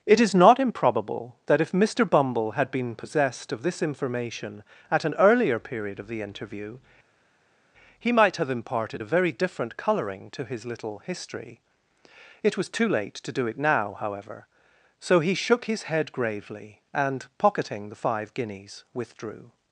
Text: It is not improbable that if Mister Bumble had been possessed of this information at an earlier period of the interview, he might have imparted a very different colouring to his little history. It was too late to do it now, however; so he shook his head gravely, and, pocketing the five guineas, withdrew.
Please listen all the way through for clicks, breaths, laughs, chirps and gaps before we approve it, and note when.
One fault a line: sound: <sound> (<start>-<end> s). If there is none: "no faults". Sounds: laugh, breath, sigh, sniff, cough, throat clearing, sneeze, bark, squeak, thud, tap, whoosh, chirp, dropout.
no faults